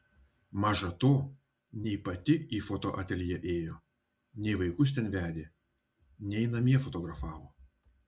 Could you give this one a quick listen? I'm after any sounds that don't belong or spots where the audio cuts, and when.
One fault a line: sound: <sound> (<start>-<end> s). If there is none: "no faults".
no faults